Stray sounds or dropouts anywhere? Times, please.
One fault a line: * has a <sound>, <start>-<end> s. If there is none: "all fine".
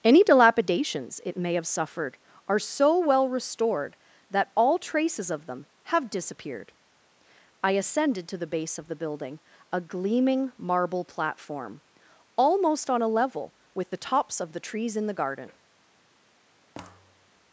* has a thud, 16.7-17.3 s